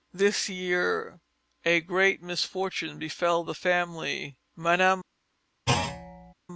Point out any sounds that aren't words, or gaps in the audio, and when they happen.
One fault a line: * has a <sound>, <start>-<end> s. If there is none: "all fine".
* has a thud, 5.7-6.3 s